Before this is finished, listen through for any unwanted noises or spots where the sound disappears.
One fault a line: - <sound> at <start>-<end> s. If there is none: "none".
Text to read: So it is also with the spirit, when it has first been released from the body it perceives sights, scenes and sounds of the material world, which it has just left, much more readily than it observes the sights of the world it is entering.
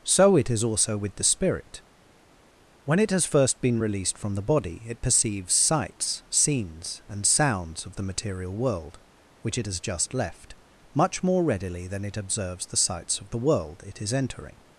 none